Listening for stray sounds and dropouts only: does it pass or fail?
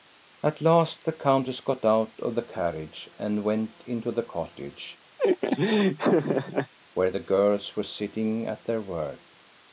fail